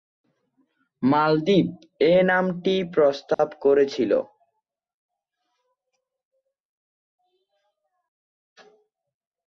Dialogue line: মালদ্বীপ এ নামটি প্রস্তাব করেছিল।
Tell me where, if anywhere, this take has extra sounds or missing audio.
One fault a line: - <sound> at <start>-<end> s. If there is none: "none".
- dropout at 3.3-3.4 s